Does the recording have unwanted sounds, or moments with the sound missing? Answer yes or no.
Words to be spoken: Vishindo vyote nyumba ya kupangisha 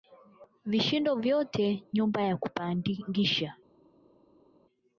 no